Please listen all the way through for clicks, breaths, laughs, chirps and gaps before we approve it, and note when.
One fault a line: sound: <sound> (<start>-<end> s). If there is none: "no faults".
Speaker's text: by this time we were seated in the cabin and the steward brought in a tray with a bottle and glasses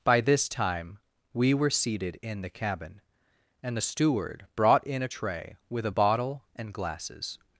no faults